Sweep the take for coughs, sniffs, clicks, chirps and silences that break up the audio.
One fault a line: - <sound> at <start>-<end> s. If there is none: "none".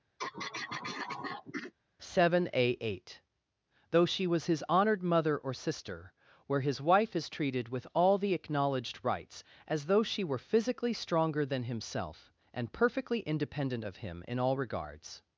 - throat clearing at 0.2-1.7 s